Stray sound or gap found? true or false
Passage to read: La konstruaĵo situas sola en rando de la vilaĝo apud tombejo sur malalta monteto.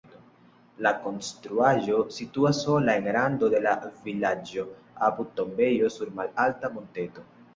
false